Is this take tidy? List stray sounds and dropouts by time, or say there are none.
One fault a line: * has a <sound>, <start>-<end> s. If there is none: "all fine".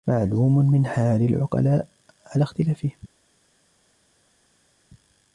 all fine